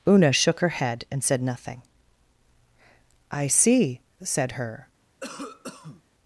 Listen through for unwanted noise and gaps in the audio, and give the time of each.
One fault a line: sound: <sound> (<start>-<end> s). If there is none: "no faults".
sound: cough (5.2-6.0 s)